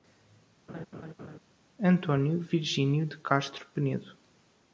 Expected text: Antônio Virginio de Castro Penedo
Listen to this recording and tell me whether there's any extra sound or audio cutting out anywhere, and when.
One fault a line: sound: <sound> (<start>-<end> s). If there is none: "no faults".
sound: laugh (0.7-1.4 s)